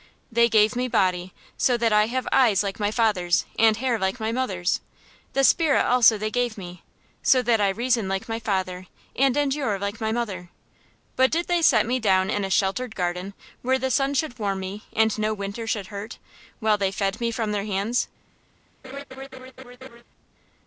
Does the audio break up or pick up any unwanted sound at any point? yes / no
yes